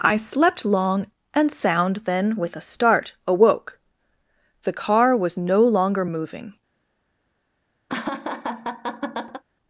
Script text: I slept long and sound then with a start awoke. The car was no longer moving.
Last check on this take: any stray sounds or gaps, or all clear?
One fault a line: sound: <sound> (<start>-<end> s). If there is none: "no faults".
sound: laugh (7.9-9.4 s)